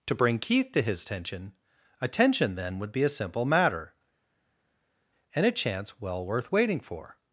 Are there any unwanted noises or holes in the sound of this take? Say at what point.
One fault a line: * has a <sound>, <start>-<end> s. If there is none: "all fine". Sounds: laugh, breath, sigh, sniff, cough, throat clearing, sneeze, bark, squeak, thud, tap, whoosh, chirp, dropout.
all fine